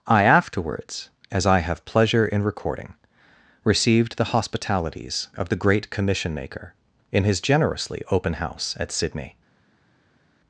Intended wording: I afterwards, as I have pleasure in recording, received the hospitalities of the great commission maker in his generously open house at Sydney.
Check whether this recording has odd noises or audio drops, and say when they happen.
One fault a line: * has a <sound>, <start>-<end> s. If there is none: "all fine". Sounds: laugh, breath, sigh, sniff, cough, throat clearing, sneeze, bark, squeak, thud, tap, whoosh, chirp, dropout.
all fine